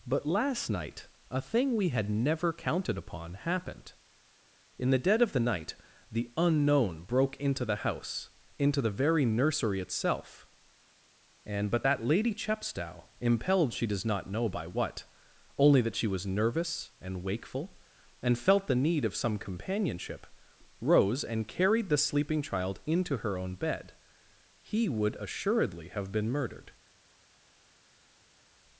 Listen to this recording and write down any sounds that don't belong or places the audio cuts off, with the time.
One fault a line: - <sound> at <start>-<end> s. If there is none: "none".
none